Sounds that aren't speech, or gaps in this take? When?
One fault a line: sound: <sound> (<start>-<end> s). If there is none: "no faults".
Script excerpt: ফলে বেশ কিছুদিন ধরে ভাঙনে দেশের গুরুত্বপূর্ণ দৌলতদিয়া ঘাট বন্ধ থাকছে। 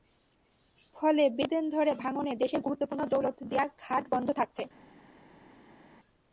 no faults